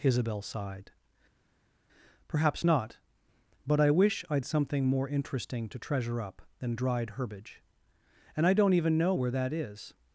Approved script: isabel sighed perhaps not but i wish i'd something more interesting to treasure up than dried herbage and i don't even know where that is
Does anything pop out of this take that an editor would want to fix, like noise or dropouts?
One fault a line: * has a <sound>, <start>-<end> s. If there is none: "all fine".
all fine